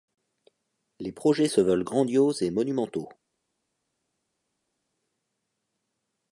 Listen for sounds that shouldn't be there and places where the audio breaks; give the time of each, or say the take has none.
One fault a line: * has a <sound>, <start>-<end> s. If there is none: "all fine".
all fine